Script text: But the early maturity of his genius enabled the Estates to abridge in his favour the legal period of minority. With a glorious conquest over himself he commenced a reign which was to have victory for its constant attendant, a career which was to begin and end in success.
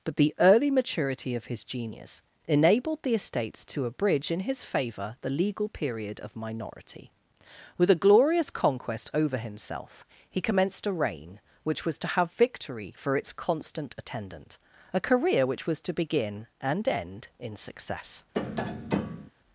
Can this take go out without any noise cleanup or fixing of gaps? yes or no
no